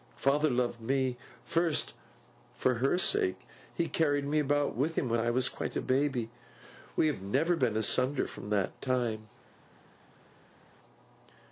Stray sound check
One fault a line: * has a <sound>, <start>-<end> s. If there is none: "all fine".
all fine